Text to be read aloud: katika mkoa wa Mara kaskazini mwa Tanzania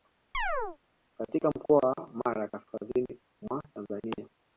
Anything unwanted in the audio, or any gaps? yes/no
yes